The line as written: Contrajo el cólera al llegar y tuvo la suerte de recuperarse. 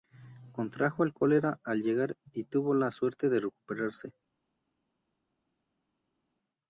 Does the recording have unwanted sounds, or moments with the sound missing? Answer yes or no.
no